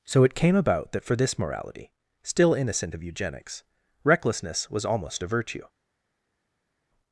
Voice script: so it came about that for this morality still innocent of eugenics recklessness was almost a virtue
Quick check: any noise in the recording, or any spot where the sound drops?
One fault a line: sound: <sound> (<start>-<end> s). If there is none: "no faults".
no faults